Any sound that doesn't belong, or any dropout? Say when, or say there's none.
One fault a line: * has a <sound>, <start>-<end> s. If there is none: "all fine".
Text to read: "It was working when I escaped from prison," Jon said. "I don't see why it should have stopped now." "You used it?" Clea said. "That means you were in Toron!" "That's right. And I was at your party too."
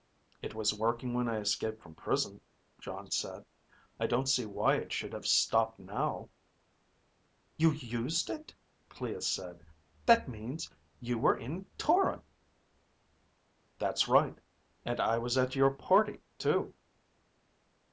all fine